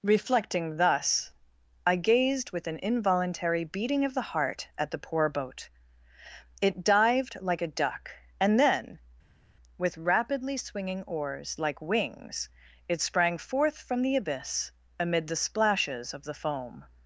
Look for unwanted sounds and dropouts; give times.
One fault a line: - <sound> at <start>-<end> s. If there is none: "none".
none